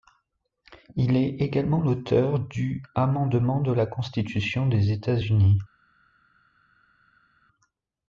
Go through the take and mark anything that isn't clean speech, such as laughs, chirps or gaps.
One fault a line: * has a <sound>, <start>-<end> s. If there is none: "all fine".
all fine